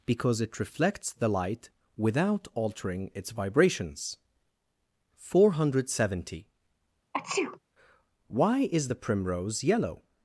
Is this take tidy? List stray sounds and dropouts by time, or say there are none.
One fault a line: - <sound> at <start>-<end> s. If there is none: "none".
- sneeze at 7.1-7.6 s